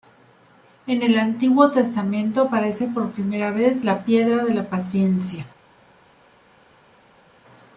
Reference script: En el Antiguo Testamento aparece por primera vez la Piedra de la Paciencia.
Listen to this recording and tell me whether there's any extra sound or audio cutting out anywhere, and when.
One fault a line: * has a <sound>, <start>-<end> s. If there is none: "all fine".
all fine